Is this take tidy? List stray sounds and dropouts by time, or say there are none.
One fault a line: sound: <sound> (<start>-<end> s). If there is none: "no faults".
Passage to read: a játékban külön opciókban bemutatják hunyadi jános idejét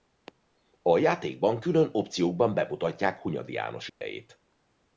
sound: dropout (3.9-4.0 s)